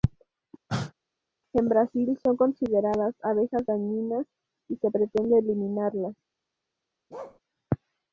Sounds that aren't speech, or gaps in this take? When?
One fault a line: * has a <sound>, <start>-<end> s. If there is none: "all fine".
* has a cough, 0.7-0.9 s
* has a bark, 7.1-7.4 s